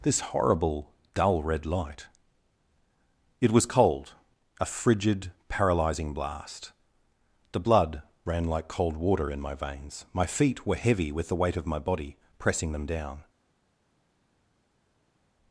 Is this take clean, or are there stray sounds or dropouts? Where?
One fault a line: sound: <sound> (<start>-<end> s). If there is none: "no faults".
no faults